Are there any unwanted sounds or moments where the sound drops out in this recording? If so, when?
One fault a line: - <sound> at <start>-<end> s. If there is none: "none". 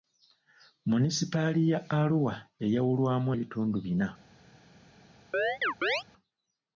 - chirp at 5.3-6.0 s